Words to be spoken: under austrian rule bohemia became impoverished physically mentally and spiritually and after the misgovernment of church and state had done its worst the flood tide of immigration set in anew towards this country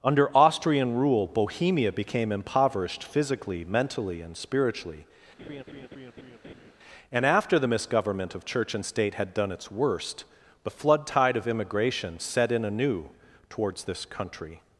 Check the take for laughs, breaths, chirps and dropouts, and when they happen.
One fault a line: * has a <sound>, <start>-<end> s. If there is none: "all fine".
* has a laugh, 5.4-6.7 s